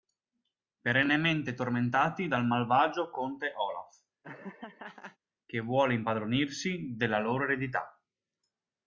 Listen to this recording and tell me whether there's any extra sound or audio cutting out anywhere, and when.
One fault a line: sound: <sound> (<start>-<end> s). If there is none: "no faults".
sound: laugh (4.2-5.2 s)